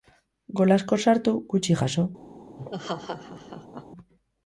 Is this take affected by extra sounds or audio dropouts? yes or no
yes